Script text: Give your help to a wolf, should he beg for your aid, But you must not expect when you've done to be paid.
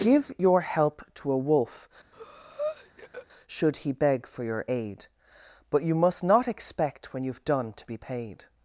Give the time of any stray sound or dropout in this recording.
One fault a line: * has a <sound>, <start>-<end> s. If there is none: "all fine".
* has a breath, 2.1-3.3 s